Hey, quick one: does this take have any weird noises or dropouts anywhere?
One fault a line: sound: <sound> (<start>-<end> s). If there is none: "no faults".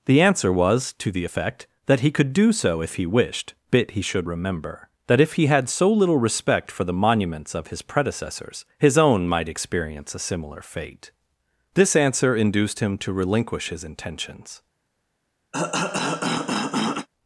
sound: cough (15.5-17.1 s)